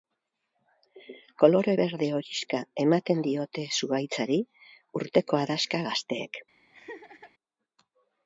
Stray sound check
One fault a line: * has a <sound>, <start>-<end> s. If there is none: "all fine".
* has a laugh, 6.7-7.3 s